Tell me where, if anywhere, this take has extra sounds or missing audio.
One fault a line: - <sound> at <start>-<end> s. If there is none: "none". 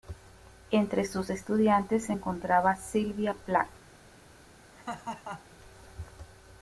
- laugh at 4.7-5.6 s